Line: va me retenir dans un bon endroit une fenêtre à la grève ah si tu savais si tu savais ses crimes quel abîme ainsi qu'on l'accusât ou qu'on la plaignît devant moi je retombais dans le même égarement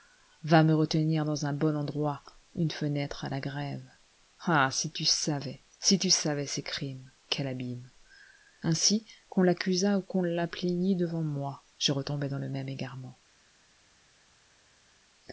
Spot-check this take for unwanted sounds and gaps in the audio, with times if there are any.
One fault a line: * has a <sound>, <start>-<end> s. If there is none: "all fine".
all fine